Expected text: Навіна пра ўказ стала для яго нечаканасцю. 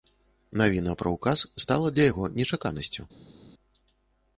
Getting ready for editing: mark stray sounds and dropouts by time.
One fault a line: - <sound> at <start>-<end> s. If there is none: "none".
none